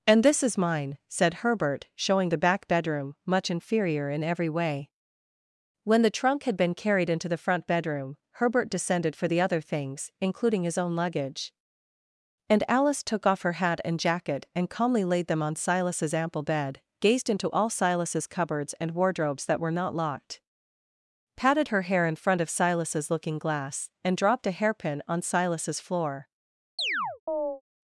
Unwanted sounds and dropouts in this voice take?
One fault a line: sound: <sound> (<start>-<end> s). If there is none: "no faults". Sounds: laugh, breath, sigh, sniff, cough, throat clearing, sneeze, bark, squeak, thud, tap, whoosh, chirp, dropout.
sound: chirp (26.8-27.6 s)